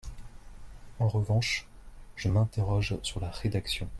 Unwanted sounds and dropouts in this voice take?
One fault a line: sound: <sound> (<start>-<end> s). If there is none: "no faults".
no faults